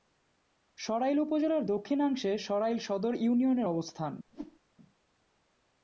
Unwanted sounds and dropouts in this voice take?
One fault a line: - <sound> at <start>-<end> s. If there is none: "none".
- whoosh at 4.3-4.6 s